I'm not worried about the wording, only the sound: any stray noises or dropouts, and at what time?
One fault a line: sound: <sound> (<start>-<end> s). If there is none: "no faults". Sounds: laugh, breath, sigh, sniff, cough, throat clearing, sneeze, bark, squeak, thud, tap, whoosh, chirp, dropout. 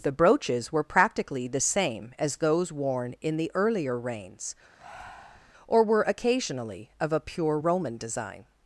sound: breath (4.8-5.5 s)